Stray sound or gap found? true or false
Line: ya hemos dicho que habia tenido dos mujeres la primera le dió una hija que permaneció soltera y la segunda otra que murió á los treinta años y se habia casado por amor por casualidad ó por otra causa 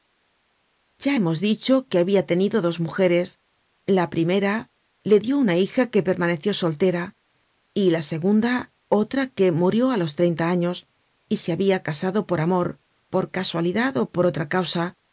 false